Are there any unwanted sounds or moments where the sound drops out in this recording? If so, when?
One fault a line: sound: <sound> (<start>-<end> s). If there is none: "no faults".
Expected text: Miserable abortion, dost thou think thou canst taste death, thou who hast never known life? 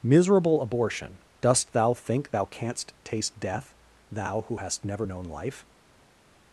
no faults